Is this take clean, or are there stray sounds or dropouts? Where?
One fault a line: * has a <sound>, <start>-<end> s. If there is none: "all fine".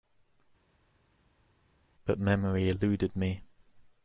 all fine